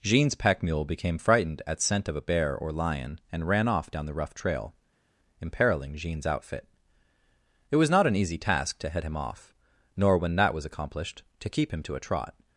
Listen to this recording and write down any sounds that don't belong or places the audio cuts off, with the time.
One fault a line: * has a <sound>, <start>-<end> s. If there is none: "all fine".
all fine